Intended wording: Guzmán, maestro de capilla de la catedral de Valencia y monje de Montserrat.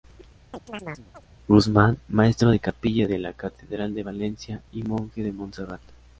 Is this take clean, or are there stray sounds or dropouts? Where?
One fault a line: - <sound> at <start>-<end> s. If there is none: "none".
- chirp at 0.5-1.3 s